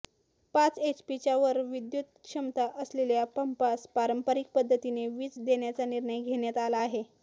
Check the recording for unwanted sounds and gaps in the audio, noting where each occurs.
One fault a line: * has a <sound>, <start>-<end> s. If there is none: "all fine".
all fine